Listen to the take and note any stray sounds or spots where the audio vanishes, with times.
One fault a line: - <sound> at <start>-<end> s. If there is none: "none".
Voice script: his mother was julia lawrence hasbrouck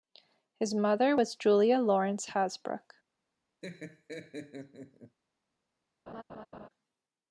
- laugh at 3.6-5.2 s
- laugh at 6.1-6.7 s